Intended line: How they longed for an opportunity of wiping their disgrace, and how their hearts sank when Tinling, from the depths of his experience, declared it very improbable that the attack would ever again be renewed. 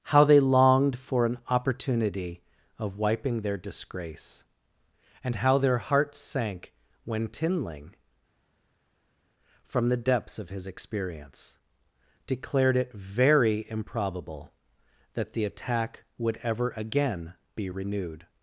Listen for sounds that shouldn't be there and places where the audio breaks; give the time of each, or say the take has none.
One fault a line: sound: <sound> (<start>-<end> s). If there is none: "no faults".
no faults